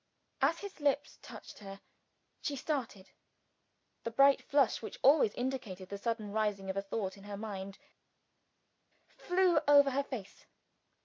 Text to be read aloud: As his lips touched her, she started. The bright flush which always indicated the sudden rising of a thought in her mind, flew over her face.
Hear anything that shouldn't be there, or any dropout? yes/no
no